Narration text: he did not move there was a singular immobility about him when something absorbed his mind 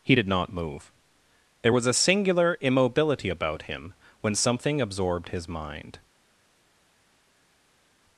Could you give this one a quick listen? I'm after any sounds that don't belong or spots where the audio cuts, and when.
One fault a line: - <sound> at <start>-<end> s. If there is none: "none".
none